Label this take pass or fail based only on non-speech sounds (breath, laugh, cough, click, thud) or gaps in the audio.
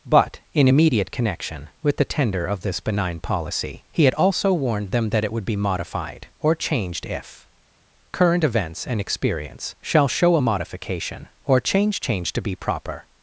pass